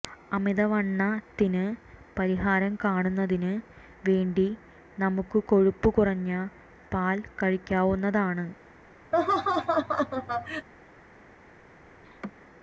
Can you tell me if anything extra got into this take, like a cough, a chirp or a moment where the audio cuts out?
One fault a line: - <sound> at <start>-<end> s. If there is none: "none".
- laugh at 9.1-10.7 s
- laugh at 12.0-12.3 s